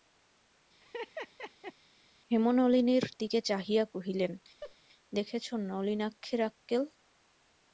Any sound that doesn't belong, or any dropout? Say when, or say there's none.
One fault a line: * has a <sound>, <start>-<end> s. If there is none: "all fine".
* has a laugh, 0.8-1.7 s
* has a laugh, 4.6-4.8 s